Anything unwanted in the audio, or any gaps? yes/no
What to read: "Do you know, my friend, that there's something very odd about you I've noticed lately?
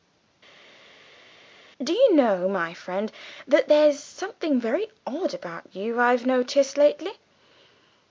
no